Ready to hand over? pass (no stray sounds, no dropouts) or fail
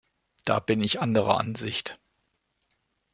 pass